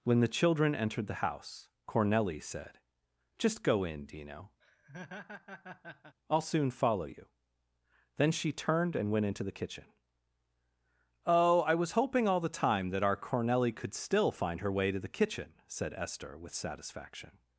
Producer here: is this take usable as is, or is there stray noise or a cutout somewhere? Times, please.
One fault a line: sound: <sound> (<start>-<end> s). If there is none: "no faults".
sound: laugh (4.6-6.2 s)